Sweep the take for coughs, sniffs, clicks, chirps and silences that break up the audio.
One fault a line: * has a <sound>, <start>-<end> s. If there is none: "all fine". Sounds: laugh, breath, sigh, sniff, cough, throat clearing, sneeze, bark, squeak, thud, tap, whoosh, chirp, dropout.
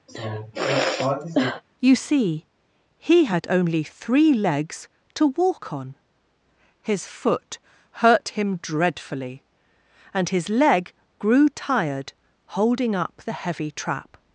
* has a sigh, 0.1-1.6 s